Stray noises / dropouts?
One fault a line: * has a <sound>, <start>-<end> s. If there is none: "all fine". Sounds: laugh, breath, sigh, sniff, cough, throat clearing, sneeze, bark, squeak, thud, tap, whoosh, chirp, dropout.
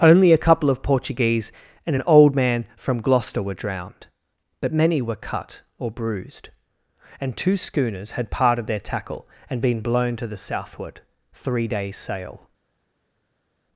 all fine